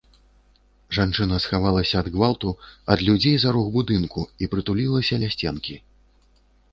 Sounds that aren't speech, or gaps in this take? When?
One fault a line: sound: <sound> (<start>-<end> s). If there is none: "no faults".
no faults